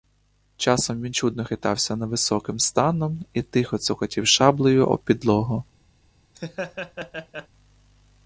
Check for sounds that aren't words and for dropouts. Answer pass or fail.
fail